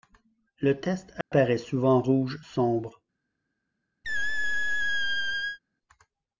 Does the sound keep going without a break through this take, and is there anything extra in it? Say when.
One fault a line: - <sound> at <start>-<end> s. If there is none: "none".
- dropout at 1.2-1.3 s
- squeak at 4.0-5.6 s